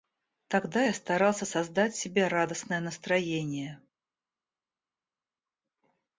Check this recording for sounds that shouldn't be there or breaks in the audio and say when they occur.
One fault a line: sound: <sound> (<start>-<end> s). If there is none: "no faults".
no faults